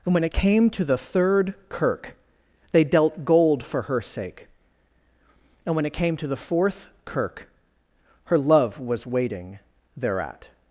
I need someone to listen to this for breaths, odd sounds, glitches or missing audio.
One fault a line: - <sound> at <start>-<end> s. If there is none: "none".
none